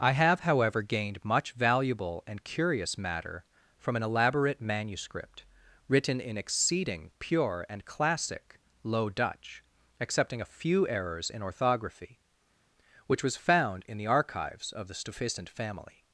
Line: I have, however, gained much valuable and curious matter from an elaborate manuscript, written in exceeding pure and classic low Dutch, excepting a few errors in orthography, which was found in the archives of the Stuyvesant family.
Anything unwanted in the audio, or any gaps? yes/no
no